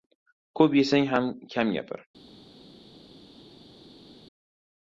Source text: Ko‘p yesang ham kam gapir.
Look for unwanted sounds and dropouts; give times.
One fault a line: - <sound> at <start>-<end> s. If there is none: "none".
none